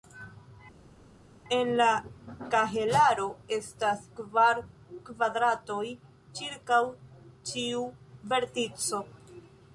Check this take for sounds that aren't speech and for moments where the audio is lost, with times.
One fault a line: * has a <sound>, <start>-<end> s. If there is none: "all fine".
all fine